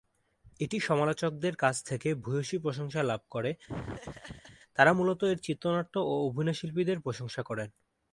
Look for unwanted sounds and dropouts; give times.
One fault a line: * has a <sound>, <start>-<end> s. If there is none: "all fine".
* has a laugh, 3.7-4.6 s